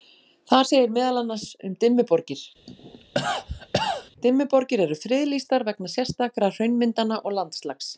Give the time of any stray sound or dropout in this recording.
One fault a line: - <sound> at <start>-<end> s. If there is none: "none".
- cough at 2.7-4.1 s